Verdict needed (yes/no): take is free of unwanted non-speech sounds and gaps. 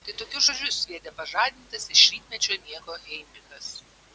yes